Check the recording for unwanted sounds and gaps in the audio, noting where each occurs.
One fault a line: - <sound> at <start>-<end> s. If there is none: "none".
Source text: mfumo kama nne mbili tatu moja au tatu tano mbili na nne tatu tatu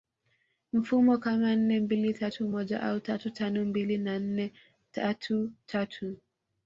none